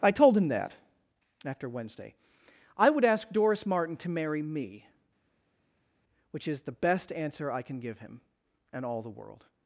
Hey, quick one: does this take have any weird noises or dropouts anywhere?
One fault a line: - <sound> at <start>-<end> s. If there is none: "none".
none